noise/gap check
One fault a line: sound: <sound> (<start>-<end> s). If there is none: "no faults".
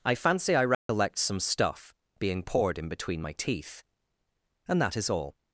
sound: dropout (0.7-0.9 s)